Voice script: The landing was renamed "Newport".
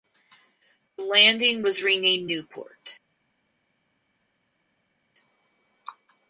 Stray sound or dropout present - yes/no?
no